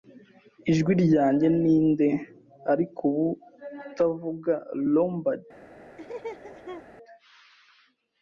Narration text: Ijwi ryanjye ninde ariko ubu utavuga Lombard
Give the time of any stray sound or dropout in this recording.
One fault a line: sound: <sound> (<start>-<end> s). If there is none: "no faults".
sound: laugh (6.0-6.8 s)